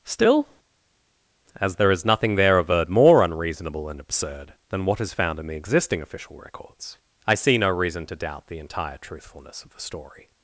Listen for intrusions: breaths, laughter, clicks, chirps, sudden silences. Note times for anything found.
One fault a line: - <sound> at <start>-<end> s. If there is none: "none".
none